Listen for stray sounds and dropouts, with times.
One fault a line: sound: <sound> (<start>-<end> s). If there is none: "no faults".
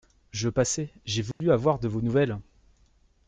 sound: dropout (1.3-1.4 s)